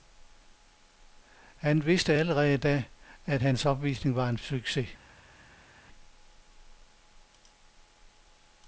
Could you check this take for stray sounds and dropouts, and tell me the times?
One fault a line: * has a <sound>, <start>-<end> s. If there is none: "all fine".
all fine